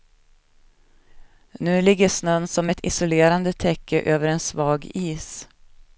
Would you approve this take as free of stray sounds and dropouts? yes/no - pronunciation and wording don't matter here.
yes